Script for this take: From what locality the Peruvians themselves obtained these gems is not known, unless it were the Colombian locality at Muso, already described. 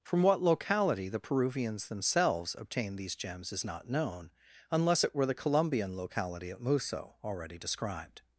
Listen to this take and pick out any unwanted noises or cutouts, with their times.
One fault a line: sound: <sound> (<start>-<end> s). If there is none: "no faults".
no faults